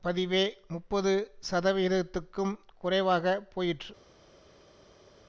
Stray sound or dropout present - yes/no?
no